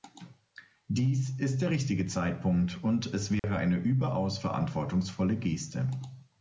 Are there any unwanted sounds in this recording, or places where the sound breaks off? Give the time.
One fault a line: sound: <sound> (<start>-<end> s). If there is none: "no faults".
sound: dropout (3.4-3.4 s)